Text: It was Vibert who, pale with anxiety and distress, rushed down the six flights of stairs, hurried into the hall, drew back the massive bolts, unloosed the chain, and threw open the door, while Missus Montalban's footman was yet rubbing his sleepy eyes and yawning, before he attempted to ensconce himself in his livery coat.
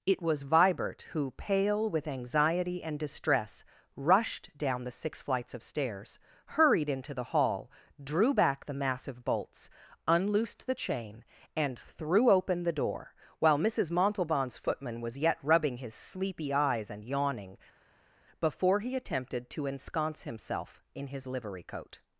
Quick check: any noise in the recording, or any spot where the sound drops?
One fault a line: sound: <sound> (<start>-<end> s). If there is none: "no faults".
no faults